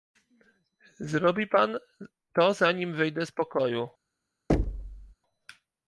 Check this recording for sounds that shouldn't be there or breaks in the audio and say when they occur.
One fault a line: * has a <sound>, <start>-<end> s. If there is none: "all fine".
* has a thud, 4.5-5.1 s